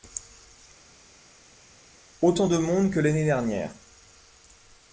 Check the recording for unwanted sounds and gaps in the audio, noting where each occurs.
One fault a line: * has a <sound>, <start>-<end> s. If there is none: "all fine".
all fine